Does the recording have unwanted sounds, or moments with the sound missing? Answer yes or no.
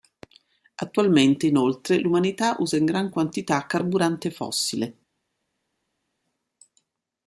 no